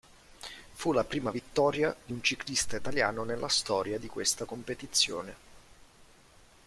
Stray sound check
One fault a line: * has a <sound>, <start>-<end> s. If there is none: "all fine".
all fine